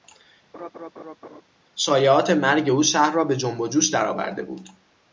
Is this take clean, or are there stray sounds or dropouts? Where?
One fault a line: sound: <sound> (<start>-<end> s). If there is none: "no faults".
sound: laugh (0.5-1.4 s)